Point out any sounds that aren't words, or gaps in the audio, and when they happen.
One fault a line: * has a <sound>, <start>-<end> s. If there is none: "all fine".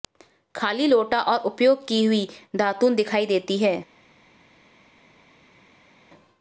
all fine